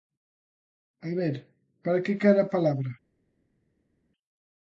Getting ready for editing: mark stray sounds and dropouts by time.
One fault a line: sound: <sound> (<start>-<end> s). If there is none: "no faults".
no faults